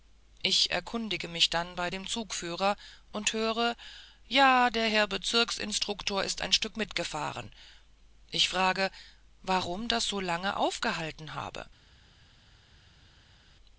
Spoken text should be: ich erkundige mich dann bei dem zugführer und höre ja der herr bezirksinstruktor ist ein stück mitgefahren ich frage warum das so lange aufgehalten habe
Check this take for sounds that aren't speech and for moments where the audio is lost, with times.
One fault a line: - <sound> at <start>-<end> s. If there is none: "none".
none